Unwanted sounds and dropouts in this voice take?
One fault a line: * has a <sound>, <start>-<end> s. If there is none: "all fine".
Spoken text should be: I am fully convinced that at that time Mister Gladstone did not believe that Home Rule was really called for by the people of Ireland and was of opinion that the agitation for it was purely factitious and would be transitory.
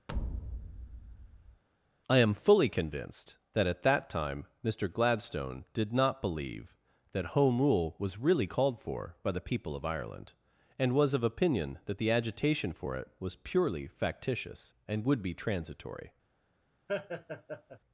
* has a thud, 0.1-1.6 s
* has a laugh, 16.9-17.8 s